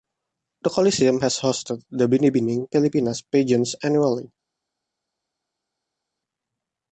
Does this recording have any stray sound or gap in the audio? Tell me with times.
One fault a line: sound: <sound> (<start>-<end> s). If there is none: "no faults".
no faults